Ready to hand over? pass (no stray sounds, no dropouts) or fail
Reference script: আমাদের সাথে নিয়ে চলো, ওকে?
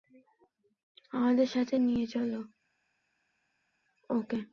pass